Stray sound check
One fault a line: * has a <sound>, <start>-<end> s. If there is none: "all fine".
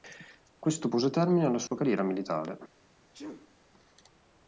* has a dropout, 1.7-1.7 s
* has a sneeze, 3.1-3.5 s